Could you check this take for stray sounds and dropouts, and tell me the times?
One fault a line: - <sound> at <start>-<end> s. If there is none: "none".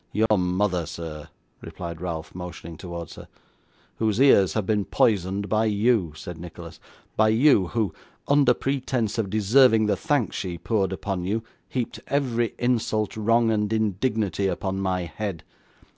- dropout at 0.3-0.3 s